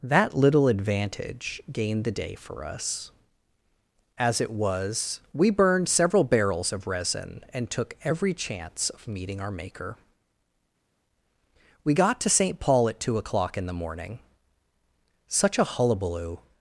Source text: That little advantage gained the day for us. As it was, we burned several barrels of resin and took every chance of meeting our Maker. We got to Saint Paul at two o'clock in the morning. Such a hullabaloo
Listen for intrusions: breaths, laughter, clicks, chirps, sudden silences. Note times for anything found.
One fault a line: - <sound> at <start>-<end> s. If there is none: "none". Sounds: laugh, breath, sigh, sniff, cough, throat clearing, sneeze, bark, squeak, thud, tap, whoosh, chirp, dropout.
none